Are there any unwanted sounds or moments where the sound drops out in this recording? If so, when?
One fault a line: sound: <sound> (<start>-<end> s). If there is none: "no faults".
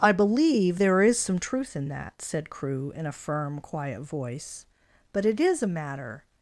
no faults